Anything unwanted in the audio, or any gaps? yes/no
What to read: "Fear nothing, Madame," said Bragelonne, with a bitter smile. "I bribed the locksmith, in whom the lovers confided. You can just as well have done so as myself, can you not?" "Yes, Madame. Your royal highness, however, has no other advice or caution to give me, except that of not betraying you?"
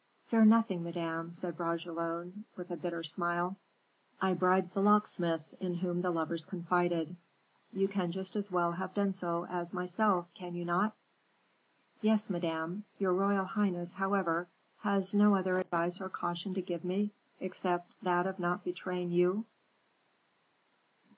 no